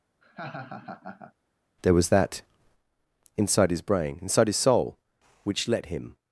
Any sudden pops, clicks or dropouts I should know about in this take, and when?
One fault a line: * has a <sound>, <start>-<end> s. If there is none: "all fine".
* has a laugh, 0.2-1.3 s